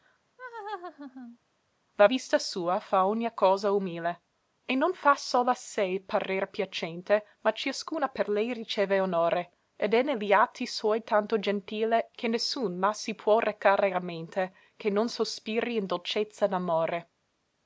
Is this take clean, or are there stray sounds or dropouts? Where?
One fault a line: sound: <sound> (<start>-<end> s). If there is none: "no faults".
sound: laugh (0.4-1.4 s)